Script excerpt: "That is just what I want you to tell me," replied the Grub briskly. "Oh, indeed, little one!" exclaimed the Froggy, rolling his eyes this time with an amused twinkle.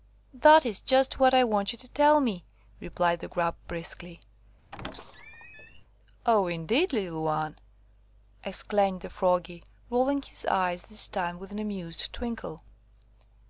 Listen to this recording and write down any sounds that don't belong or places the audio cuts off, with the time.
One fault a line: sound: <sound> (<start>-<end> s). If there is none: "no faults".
sound: squeak (4.7-5.8 s)